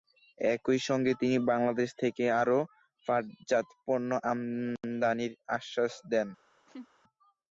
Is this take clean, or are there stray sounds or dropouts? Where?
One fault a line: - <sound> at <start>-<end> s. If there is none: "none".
- laugh at 6.7-6.9 s